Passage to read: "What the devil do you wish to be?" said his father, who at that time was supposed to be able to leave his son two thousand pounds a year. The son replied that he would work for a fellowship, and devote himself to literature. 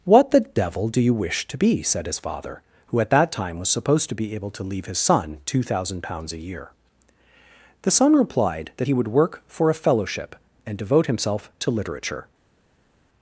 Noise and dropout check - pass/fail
pass